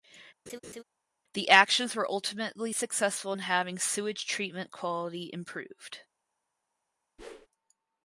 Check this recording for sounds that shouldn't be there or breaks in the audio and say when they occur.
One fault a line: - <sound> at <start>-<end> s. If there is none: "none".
- laugh at 0.5-0.8 s
- whoosh at 7.2-7.5 s